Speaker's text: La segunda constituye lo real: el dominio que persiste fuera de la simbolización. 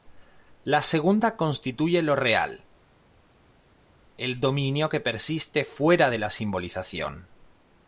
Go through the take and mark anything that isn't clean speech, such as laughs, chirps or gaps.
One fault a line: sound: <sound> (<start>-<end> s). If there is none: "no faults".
no faults